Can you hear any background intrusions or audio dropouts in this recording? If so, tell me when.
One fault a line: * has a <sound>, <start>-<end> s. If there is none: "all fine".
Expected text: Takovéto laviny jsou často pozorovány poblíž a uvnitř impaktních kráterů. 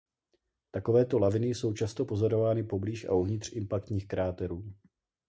all fine